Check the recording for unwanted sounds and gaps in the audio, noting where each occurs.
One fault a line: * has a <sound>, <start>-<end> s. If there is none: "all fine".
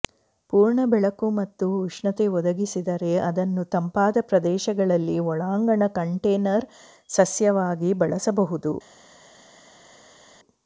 all fine